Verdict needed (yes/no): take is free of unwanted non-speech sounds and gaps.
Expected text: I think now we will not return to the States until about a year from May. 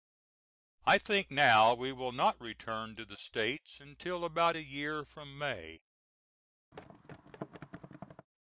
no